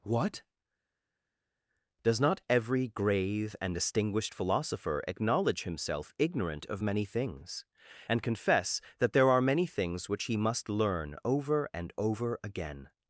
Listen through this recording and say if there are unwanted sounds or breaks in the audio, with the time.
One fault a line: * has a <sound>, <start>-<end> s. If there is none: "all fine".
all fine